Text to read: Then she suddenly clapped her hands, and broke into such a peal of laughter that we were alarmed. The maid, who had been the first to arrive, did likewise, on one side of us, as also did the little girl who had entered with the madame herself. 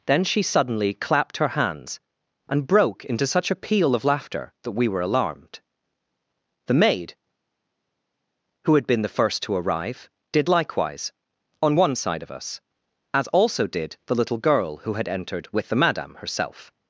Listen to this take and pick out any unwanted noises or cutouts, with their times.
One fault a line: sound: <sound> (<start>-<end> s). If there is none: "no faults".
no faults